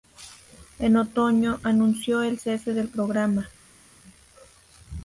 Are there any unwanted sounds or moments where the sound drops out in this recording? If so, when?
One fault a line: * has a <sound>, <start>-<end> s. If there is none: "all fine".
all fine